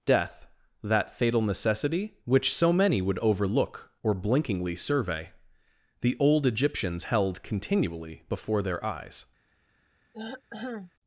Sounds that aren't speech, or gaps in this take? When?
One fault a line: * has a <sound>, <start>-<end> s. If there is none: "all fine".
* has a throat clearing, 10.1-10.9 s